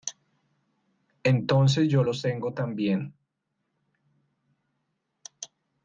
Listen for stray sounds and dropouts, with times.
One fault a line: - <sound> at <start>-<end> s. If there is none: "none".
none